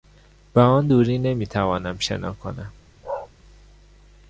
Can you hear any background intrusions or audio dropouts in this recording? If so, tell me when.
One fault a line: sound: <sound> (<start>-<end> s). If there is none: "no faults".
sound: bark (3.0-3.3 s)